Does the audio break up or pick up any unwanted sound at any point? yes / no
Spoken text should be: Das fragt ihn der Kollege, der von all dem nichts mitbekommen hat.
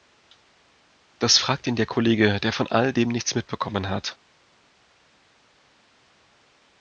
no